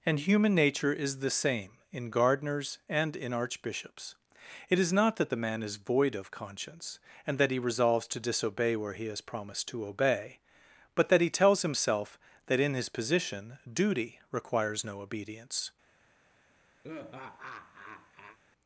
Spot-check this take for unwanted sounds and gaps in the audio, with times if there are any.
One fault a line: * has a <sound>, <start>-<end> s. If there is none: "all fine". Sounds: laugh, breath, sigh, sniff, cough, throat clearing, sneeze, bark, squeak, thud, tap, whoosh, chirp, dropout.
* has a laugh, 16.8-18.4 s